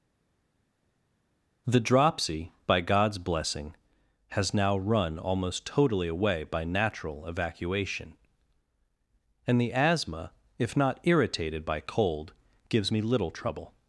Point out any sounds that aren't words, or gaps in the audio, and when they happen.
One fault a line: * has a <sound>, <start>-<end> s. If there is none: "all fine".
all fine